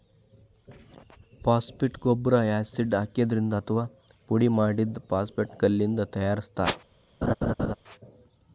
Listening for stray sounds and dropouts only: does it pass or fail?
fail